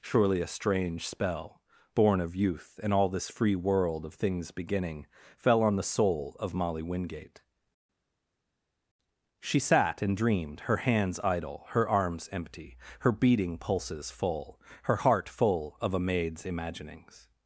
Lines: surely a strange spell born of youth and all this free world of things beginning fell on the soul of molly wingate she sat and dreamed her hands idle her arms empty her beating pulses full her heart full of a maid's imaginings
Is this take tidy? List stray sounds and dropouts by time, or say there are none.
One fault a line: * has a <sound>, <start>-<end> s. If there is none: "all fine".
all fine